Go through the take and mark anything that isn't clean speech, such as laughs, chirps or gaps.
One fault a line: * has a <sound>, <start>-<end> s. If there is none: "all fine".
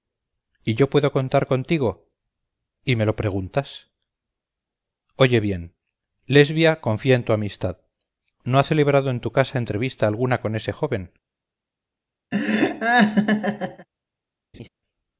* has a laugh, 12.3-13.9 s
* has a laugh, 14.5-14.7 s